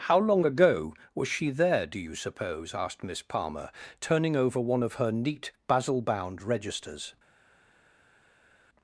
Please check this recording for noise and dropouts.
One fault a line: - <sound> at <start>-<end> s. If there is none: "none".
none